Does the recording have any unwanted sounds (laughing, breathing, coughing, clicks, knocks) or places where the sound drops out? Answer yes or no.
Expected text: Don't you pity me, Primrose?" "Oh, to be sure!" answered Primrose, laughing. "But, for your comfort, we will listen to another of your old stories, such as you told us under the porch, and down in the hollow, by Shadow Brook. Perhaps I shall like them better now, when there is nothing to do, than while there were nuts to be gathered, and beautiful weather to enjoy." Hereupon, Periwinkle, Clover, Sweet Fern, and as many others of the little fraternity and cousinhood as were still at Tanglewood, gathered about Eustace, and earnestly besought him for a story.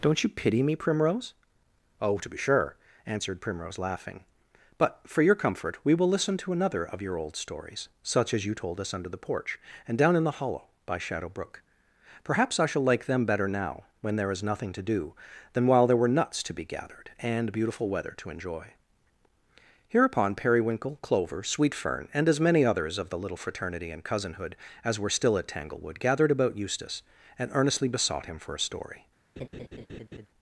yes